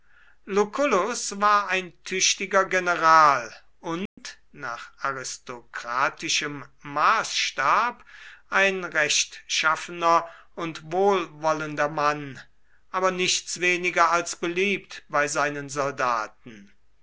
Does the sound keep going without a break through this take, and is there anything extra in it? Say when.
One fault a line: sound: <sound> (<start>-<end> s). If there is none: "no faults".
sound: dropout (4.1-4.2 s)